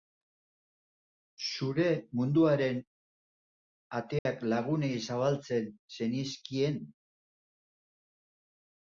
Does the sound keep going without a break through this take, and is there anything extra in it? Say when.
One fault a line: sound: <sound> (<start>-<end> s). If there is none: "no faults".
sound: dropout (4.2-4.3 s)